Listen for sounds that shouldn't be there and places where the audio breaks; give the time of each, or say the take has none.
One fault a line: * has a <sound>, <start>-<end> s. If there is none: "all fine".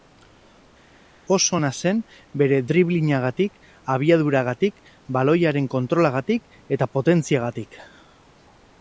all fine